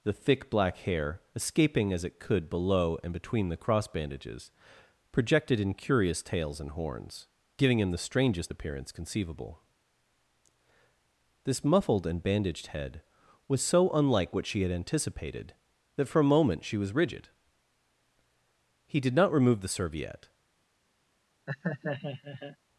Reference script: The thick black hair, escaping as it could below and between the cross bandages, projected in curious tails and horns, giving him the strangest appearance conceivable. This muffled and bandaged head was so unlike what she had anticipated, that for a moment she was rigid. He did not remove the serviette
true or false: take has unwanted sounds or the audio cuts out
true